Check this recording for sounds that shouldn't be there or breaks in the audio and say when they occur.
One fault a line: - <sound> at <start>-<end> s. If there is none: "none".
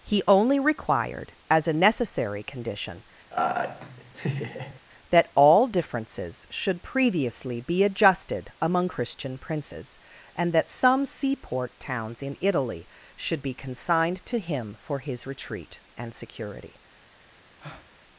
- laugh at 3.3-4.8 s
- breath at 17.6-17.9 s